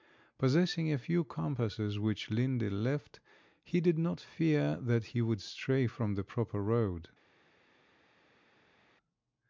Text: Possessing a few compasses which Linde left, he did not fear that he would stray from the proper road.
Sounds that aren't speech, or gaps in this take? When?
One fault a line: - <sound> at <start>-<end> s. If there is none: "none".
none